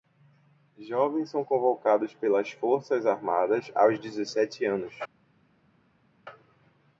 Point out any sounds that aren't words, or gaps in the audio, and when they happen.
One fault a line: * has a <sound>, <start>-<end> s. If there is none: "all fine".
all fine